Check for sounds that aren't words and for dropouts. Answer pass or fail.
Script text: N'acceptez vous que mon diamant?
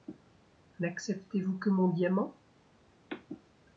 pass